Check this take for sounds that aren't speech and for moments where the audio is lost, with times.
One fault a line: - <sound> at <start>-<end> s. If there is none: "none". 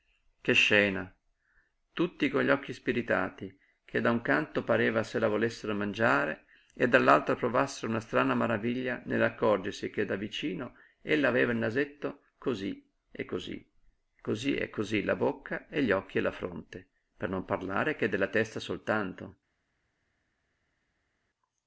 none